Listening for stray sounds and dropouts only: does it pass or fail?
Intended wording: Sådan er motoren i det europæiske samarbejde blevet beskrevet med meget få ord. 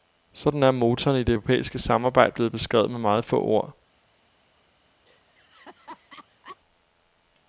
fail